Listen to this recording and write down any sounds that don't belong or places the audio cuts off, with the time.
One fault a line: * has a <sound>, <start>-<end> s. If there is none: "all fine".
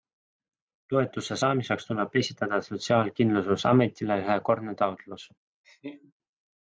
* has a laugh, 5.6-6.1 s